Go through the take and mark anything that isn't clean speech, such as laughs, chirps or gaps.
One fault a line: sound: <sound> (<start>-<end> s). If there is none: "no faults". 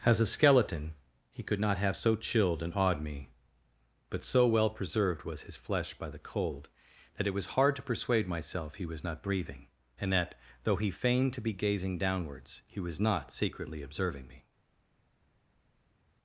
no faults